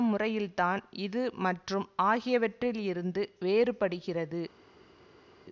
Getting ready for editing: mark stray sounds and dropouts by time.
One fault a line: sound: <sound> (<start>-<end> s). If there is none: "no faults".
no faults